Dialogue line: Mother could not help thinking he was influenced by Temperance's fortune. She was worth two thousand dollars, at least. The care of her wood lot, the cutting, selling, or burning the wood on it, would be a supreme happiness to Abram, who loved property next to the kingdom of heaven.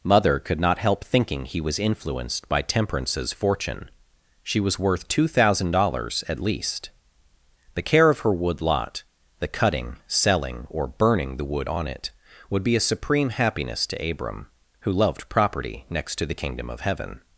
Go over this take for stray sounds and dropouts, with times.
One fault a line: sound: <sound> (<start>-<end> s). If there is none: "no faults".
no faults